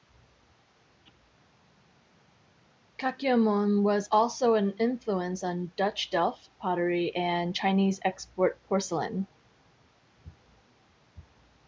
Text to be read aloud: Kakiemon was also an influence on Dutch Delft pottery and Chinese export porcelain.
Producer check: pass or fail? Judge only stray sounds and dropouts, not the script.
pass